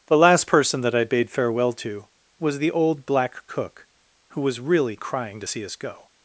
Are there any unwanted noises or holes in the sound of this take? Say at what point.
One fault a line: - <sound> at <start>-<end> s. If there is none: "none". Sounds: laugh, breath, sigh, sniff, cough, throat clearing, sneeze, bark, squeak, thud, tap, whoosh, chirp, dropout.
none